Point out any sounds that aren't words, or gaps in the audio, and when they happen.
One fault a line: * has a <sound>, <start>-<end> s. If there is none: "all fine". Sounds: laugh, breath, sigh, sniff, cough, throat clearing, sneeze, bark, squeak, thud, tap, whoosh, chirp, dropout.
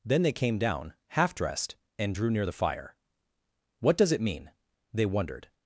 all fine